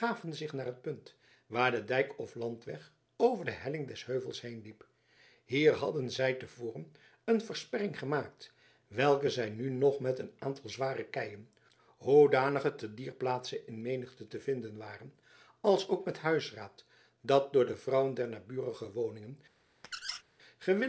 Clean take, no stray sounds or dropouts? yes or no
no